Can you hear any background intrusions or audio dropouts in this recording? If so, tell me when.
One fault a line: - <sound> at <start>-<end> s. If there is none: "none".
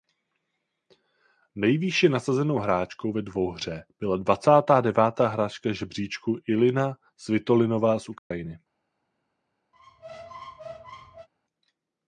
- dropout at 8.2-8.3 s
- squeak at 9.7-11.3 s